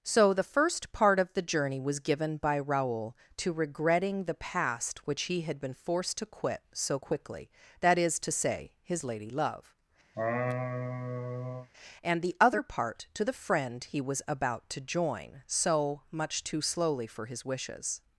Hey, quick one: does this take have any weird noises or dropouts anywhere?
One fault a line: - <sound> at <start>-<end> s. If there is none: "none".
- laugh at 10.1-11.7 s